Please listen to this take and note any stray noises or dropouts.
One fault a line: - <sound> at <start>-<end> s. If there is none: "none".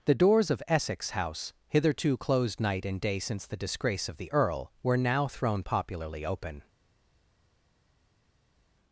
none